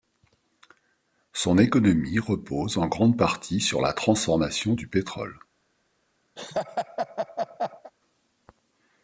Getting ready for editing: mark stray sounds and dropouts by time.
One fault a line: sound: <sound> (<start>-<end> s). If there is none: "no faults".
sound: laugh (6.4-7.9 s)